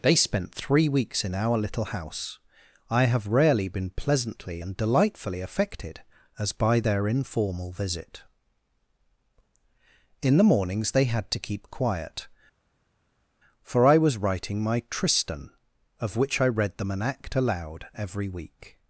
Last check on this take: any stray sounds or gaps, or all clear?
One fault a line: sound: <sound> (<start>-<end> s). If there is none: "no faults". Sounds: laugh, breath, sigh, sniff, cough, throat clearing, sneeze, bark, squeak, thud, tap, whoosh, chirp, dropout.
no faults